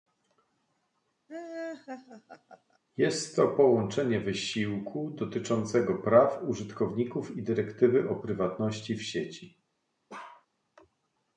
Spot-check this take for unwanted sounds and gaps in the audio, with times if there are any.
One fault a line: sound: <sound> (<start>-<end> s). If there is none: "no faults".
sound: laugh (1.3-2.8 s)
sound: bark (10.1-10.5 s)